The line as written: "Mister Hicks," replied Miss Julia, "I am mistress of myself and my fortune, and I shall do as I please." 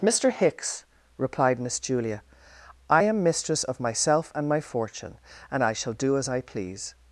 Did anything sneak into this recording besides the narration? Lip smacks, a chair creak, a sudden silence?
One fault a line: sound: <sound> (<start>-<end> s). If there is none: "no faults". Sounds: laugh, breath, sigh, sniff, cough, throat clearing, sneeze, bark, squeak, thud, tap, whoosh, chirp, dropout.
no faults